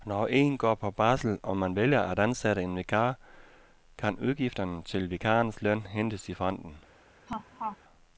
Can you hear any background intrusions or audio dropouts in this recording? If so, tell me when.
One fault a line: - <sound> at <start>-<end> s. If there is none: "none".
- laugh at 7.3-7.8 s